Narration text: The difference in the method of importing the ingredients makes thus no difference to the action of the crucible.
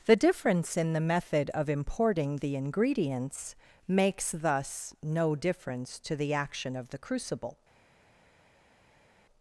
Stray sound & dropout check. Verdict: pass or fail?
pass